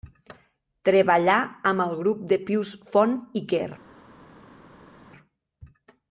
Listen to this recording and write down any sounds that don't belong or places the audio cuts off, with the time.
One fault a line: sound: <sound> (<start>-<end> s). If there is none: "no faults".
no faults